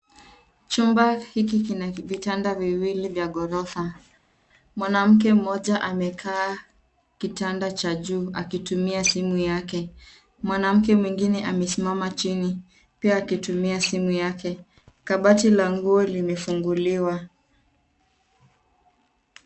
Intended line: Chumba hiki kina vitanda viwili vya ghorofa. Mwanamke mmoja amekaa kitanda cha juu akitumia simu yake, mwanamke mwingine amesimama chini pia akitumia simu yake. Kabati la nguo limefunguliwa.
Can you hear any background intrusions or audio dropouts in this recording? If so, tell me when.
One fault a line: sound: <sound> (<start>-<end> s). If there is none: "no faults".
no faults